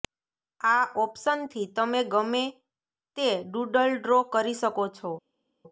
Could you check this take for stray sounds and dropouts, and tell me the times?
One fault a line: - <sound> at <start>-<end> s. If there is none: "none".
none